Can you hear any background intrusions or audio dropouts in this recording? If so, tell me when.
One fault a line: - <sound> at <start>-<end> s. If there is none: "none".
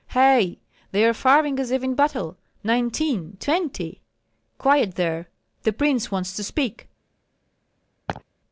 - laugh at 8.1-8.2 s